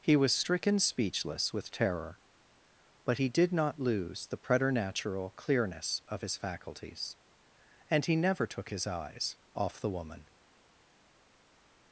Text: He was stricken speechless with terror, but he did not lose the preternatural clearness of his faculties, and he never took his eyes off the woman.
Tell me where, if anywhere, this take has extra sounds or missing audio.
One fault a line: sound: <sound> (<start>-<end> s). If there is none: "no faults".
no faults